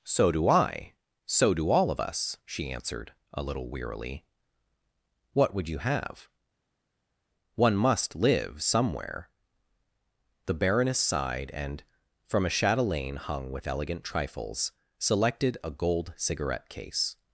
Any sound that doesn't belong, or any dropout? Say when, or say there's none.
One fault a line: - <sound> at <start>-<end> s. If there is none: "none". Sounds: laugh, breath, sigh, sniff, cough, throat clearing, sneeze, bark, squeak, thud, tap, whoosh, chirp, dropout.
none